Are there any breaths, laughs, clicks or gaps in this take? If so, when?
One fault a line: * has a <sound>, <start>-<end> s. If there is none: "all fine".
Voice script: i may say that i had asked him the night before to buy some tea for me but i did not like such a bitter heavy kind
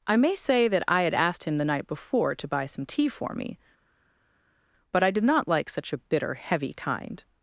all fine